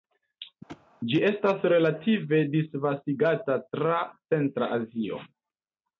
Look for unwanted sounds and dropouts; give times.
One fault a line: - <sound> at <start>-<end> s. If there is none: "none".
- thud at 0.7-0.9 s